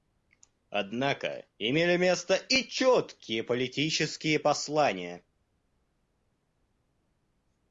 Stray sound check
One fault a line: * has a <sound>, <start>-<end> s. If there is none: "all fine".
all fine